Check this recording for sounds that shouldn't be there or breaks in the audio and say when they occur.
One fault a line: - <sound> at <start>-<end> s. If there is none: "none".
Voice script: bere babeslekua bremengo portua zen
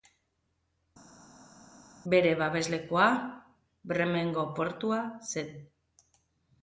none